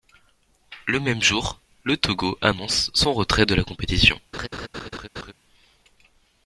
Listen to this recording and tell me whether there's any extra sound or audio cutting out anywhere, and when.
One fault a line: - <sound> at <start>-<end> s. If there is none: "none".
- laugh at 4.3-5.3 s